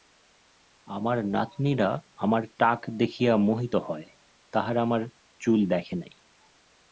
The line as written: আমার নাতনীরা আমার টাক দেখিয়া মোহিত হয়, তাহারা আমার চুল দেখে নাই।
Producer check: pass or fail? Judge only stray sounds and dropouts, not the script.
pass